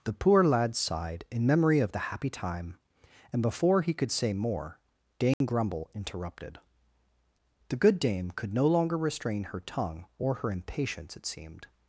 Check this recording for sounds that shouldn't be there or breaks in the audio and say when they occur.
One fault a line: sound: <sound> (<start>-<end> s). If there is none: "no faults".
sound: dropout (5.3-5.4 s)